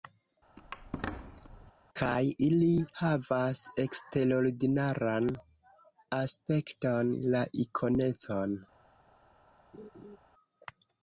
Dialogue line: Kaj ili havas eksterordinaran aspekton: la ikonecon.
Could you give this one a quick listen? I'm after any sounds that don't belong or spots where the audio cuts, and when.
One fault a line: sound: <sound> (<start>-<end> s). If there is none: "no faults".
sound: squeak (0.6-1.7 s)
sound: laugh (9.7-10.2 s)